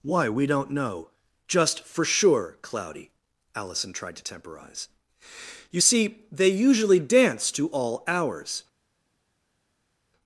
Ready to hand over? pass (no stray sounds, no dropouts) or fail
pass